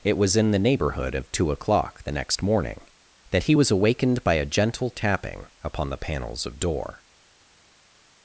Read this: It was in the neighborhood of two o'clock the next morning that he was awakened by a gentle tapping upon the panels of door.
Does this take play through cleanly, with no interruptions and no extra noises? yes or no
yes